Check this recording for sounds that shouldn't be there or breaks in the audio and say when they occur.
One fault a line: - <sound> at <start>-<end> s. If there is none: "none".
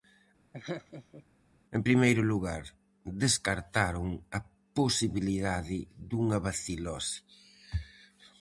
- laugh at 0.5-1.2 s